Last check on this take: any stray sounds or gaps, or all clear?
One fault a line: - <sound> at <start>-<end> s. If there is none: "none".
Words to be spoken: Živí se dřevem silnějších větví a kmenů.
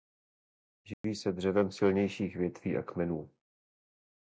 - dropout at 0.9-1.0 s